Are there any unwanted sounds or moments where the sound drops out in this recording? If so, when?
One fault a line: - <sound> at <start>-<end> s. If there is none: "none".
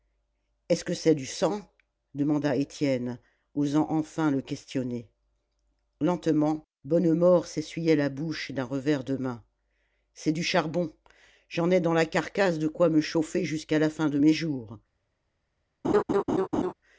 - laugh at 15.8-16.7 s